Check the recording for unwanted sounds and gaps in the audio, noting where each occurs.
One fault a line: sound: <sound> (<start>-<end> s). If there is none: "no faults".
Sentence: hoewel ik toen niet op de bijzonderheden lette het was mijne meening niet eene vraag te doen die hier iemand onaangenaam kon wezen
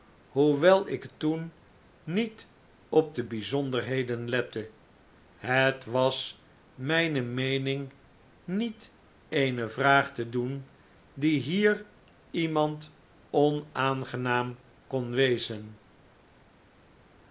no faults